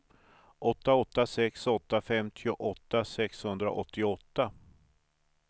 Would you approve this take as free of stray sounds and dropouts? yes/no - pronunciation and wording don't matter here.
yes